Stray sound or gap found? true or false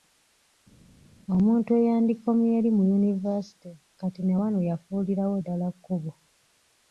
false